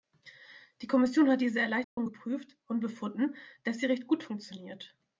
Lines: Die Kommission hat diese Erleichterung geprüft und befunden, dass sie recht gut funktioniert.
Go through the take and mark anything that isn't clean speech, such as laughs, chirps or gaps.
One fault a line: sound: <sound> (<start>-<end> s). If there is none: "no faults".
sound: dropout (1.8-2.0 s)